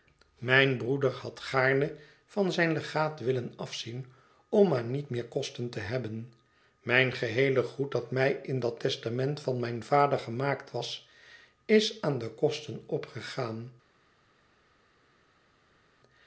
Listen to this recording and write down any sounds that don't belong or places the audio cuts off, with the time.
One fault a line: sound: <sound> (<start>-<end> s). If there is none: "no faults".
no faults